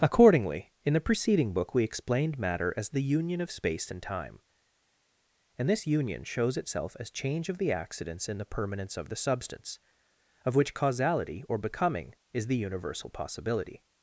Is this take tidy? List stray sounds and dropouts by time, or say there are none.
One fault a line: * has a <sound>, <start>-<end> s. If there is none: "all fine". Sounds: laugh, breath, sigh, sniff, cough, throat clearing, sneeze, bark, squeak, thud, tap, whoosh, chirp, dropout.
all fine